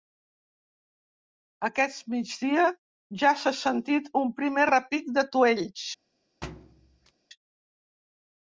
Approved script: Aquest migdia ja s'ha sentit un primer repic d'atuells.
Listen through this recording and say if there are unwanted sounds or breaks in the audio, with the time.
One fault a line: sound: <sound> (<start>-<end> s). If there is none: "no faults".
sound: thud (6.4-7.1 s)